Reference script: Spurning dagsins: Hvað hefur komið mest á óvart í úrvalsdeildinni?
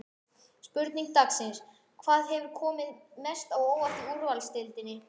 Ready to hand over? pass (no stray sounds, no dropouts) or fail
pass